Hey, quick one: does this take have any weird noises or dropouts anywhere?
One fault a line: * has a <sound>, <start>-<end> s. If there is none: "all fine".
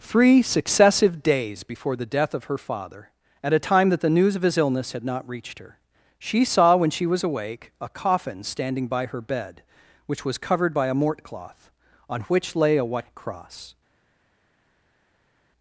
all fine